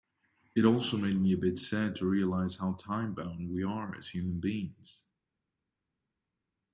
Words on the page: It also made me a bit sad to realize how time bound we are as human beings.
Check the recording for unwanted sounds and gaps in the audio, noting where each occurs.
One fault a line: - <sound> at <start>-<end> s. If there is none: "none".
none